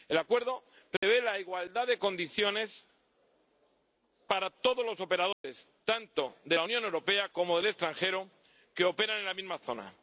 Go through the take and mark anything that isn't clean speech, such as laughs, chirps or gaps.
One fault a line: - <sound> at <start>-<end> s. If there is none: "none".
- dropout at 1.0-1.0 s
- dropout at 5.3-5.4 s